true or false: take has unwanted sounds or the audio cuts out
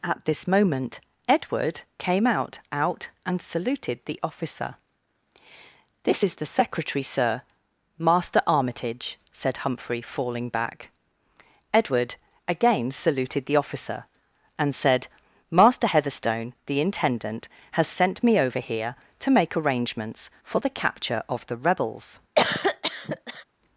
true